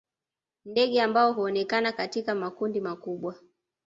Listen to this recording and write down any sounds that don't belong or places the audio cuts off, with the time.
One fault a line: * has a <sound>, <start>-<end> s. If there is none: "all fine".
all fine